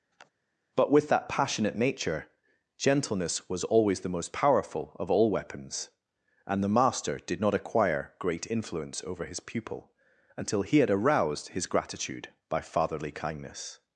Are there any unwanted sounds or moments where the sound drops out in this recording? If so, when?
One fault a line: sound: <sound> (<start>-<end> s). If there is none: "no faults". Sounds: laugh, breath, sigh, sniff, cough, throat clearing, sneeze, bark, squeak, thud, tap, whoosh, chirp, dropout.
sound: sniff (0.1-0.3 s)